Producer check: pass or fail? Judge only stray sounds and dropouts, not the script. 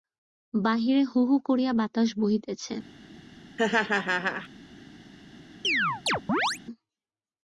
fail